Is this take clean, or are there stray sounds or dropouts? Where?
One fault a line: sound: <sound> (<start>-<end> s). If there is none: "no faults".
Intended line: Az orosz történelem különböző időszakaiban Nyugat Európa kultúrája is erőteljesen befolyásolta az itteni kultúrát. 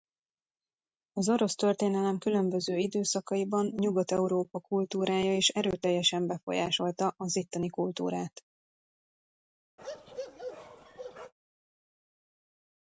sound: bark (9.8-11.3 s)